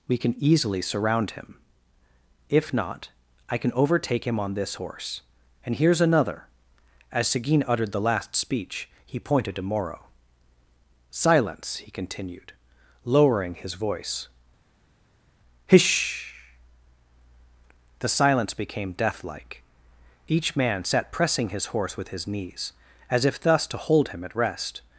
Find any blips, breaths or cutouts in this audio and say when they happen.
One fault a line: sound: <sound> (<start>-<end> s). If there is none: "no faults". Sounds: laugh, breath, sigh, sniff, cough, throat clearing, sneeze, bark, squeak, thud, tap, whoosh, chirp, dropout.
no faults